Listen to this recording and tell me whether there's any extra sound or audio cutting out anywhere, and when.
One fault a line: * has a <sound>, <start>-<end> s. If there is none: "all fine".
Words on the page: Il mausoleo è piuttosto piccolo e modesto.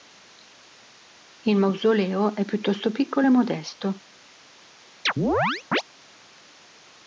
* has a chirp, 5.1-5.8 s